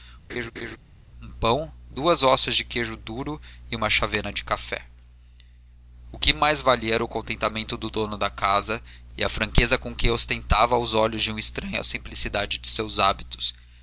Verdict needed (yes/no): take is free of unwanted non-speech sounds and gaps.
no